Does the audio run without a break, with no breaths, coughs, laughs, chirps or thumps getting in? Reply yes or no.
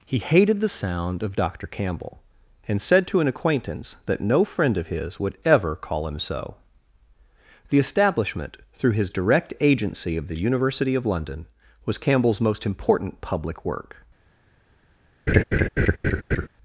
no